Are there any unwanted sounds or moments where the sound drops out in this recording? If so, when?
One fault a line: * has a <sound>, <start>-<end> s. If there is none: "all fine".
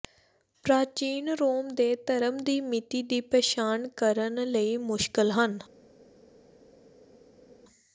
all fine